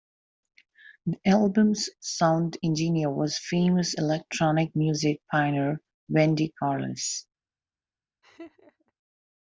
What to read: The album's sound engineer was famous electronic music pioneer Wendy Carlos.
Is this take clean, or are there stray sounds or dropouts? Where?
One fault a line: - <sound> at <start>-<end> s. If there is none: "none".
- laugh at 8.2-8.9 s